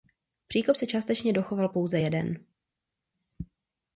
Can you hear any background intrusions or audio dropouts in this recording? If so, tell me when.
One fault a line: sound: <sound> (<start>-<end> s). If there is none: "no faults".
no faults